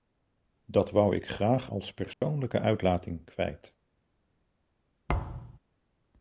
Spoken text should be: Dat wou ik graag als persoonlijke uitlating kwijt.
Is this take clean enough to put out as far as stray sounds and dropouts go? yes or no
no